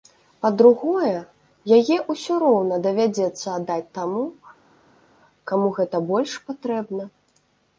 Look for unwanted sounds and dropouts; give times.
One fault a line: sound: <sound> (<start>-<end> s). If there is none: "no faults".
no faults